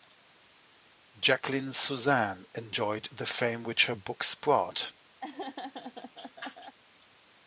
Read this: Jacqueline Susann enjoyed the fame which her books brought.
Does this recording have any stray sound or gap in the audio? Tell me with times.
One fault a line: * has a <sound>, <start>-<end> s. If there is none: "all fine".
* has a laugh, 5.2-6.8 s